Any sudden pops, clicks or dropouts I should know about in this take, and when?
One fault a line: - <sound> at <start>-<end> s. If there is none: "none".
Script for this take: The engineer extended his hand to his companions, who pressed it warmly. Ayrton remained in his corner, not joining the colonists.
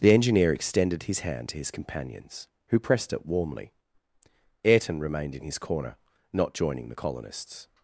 none